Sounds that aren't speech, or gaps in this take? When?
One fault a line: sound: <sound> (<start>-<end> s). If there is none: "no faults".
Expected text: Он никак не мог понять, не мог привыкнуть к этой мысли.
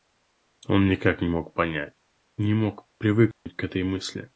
sound: dropout (3.3-3.5 s)